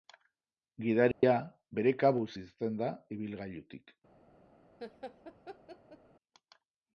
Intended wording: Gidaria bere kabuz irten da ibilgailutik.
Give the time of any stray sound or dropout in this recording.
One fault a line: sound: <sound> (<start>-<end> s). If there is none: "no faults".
sound: dropout (1.1-1.2 s)
sound: laugh (4.8-6.0 s)